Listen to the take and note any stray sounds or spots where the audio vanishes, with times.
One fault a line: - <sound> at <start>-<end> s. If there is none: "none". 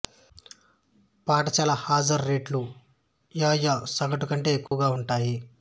- dropout at 4.7-4.7 s